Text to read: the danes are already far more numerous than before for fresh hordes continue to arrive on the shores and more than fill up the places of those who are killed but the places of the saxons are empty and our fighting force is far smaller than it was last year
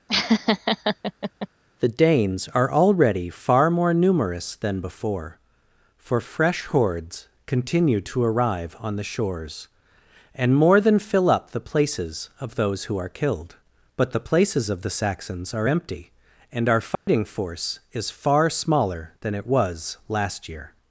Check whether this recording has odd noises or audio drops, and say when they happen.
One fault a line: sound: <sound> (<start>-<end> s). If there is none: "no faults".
sound: laugh (0.1-1.5 s)
sound: dropout (17.0-17.1 s)